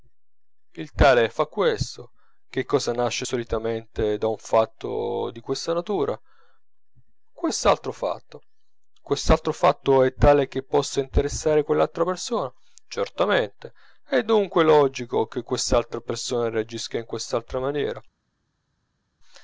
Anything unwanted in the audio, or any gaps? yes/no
no